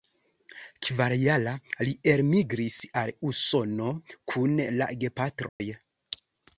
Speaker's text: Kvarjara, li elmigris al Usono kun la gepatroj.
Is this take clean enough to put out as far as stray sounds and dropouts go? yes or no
no